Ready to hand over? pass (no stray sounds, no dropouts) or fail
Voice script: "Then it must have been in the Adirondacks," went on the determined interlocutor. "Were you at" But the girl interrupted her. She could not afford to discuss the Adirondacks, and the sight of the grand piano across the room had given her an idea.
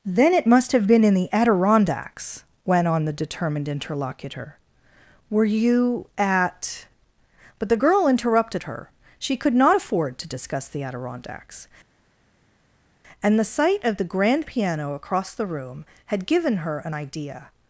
pass